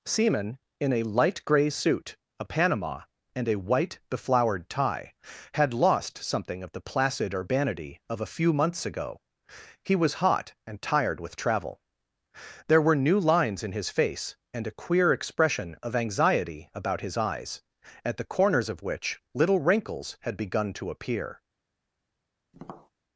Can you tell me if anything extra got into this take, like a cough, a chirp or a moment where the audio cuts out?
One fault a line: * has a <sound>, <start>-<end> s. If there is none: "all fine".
* has a tap, 22.5-22.9 s